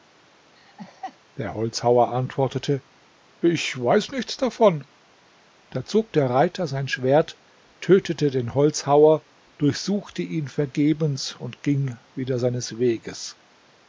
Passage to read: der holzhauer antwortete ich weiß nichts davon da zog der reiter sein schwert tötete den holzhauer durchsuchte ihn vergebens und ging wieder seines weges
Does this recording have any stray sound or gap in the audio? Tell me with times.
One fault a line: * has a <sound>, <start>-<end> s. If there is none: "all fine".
* has a laugh, 0.6-1.2 s